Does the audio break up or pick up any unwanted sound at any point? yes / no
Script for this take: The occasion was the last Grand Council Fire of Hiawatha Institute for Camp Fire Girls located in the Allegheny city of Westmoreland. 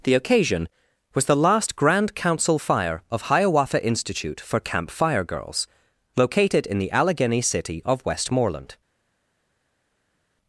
no